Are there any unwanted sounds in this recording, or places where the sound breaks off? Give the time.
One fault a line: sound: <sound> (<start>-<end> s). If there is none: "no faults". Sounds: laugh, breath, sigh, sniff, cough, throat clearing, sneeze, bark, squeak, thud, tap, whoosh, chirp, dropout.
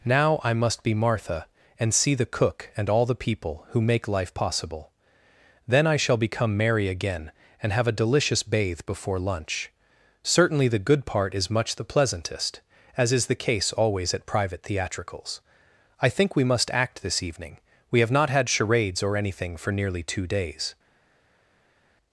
no faults